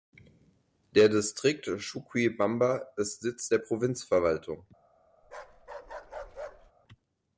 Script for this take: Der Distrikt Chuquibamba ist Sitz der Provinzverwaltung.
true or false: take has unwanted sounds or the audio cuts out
true